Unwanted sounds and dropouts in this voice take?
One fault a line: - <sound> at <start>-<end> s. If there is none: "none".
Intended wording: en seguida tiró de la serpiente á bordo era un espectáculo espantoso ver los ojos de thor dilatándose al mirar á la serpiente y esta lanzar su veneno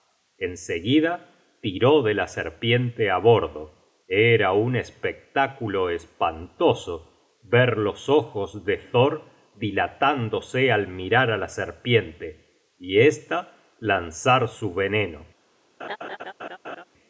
- laugh at 15.8-16.8 s